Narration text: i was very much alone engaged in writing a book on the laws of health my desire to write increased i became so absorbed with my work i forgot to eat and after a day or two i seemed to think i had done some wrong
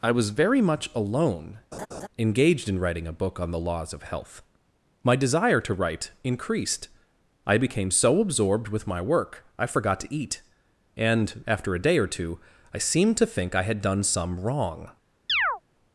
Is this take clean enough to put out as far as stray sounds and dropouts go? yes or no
no